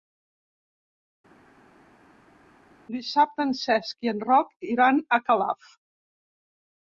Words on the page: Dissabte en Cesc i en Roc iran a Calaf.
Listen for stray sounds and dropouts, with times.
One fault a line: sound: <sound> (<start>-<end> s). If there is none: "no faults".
no faults